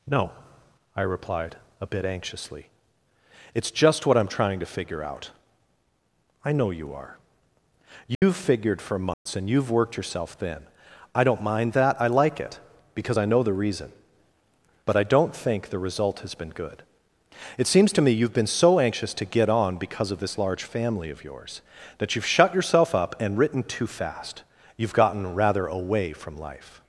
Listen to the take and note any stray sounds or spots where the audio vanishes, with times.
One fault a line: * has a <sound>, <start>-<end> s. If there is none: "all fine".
* has a dropout, 8.1-8.2 s
* has a dropout, 9.1-9.3 s